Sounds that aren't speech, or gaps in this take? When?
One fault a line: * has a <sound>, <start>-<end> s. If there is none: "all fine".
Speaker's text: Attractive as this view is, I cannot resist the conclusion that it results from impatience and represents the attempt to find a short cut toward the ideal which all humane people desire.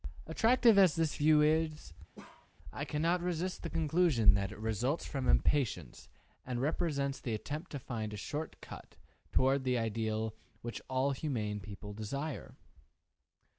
* has a bark, 2.2-2.5 s